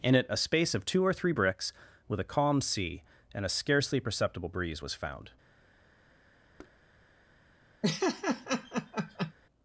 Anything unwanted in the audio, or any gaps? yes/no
yes